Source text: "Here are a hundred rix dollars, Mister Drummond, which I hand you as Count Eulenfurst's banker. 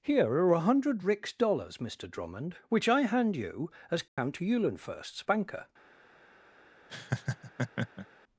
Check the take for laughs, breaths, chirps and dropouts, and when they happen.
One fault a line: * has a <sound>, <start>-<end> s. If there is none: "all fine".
* has a dropout, 4.1-4.2 s
* has a laugh, 6.9-8.1 s